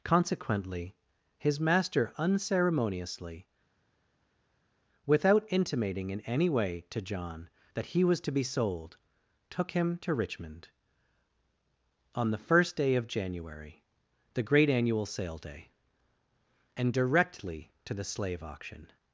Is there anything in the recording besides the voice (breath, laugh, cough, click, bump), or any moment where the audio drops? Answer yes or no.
no